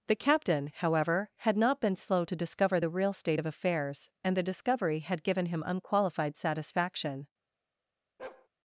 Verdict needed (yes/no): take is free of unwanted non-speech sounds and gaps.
no